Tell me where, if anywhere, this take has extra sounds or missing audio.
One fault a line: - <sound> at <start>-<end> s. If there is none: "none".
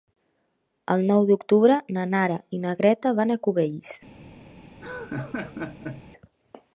- laugh at 4.8-6.1 s